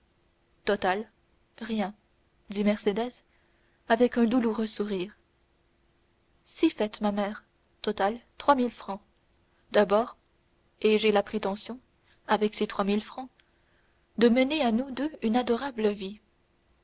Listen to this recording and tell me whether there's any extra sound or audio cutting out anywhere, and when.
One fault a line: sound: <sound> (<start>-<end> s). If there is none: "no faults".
no faults